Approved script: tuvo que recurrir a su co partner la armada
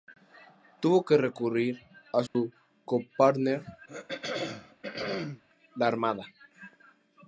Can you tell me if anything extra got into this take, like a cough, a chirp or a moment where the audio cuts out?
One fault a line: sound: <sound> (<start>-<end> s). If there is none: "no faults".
sound: dropout (2.3-2.4 s)
sound: throat clearing (3.9-5.4 s)